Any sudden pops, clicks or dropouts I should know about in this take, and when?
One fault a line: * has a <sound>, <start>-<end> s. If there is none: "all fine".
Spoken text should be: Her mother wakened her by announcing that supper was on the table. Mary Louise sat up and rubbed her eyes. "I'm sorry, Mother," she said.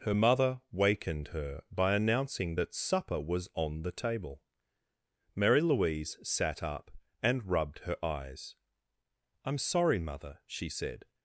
all fine